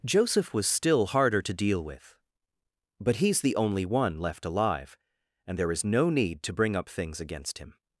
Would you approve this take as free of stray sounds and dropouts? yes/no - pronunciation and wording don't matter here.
yes